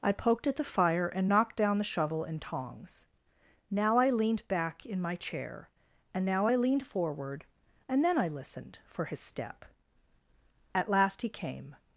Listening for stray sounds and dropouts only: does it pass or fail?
pass